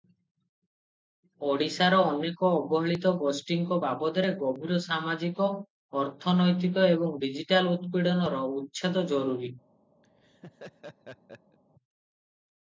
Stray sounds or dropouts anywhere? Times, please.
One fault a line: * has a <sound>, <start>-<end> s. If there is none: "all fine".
* has a laugh, 10.0-11.6 s